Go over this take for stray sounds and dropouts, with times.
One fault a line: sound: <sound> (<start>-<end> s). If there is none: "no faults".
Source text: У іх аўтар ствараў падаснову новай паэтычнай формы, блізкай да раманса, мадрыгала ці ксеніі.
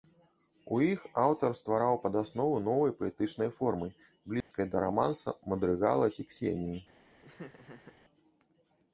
sound: dropout (4.4-4.5 s)
sound: laugh (7.2-8.0 s)